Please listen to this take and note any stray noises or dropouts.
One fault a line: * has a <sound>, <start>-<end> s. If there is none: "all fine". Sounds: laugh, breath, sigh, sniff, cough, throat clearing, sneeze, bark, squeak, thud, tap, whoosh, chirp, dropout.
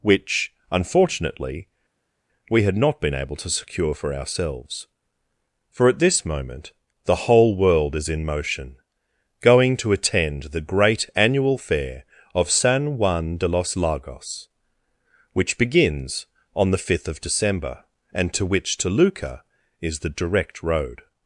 all fine